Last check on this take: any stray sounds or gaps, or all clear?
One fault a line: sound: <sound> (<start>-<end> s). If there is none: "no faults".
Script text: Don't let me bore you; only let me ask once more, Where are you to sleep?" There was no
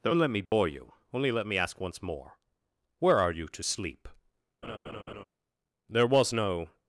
sound: dropout (0.5-0.5 s)
sound: laugh (4.6-5.2 s)